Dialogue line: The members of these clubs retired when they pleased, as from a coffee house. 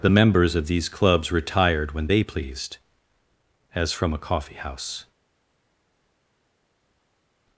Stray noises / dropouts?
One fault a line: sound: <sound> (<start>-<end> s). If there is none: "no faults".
no faults